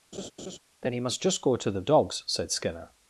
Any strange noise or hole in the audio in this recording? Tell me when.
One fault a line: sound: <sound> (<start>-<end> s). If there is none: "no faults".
sound: laugh (0.1-0.6 s)